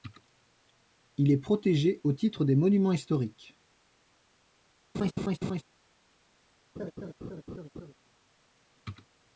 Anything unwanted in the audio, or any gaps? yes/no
yes